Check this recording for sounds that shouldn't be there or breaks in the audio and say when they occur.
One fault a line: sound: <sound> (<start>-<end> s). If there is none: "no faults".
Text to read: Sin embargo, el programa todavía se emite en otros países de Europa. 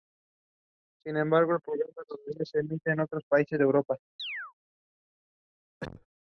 sound: chirp (4.2-4.5 s)
sound: cough (5.8-6.1 s)